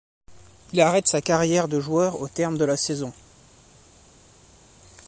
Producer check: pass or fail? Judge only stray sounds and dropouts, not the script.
pass